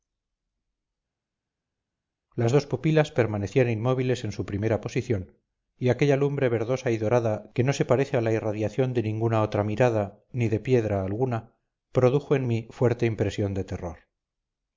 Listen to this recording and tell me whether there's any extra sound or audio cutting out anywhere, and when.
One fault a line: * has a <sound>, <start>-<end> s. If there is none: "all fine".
all fine